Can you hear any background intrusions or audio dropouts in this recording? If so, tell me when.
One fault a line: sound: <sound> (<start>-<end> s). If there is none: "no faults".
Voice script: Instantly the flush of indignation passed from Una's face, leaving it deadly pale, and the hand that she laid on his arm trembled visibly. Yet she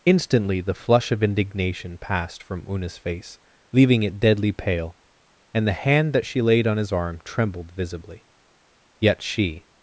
no faults